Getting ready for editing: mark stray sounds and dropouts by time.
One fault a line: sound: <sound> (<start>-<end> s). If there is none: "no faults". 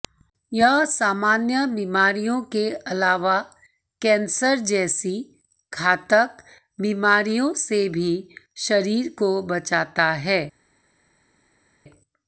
no faults